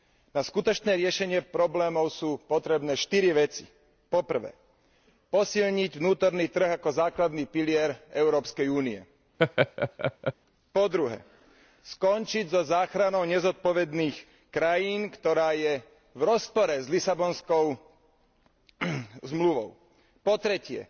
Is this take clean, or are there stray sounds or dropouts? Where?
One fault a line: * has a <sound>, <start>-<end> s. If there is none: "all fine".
* has a laugh, 9.4-10.3 s